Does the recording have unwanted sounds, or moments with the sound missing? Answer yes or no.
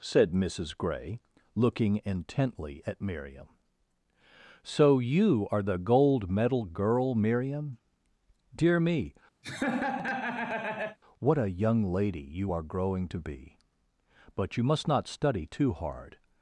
yes